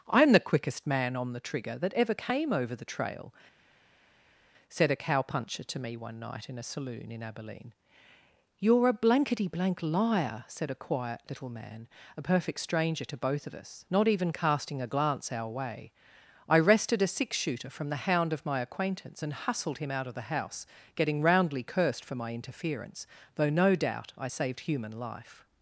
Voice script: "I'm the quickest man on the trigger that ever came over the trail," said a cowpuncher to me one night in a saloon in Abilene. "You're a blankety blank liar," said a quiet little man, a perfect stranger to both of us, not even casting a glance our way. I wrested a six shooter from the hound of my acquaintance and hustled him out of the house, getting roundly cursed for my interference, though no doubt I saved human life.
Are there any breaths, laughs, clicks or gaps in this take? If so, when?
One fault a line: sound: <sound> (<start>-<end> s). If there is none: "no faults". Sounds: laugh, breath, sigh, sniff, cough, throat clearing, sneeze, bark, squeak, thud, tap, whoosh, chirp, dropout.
no faults